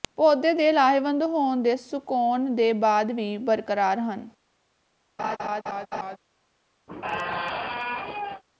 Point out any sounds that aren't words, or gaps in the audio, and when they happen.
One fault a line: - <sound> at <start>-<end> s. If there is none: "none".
- laugh at 5.2-6.2 s
- squeak at 6.9-8.4 s